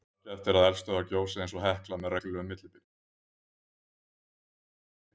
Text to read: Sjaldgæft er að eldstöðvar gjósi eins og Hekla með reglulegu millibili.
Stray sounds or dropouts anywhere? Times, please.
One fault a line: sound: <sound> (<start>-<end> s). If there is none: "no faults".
no faults